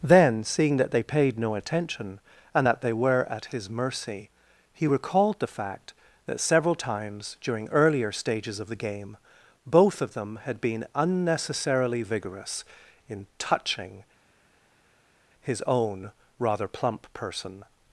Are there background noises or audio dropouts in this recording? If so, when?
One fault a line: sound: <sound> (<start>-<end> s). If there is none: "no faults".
no faults